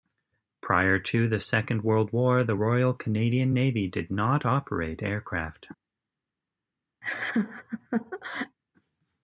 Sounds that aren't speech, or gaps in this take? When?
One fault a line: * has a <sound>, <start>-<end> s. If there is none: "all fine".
* has a laugh, 7.0-8.6 s